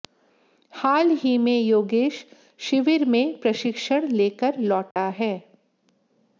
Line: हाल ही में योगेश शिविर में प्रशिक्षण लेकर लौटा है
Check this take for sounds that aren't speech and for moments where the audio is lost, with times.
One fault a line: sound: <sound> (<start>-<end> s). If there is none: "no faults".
sound: dropout (4.9-5.0 s)